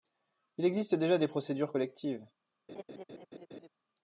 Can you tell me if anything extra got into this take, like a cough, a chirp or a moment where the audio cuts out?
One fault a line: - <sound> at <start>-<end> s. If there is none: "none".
- laugh at 2.7-3.7 s